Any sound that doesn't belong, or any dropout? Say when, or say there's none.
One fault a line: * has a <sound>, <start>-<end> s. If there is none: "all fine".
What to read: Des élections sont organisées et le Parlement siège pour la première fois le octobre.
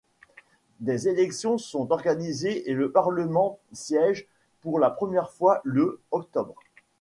all fine